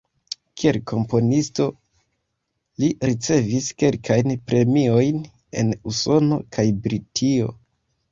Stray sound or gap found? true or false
false